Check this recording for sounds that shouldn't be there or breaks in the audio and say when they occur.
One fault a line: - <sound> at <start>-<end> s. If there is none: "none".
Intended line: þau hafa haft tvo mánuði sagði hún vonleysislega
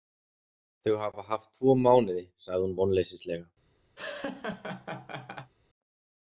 - laugh at 4.0-5.5 s